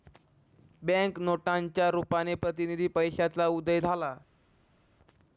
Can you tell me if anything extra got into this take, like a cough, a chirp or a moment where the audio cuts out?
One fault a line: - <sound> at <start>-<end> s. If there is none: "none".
none